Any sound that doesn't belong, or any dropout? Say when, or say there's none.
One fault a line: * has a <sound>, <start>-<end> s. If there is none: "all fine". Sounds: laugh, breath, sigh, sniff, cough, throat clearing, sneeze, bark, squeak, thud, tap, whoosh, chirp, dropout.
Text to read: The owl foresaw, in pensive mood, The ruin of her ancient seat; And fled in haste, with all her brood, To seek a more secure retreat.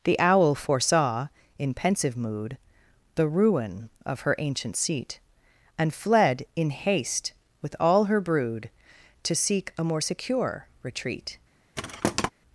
* has a thud, 11.8-12.3 s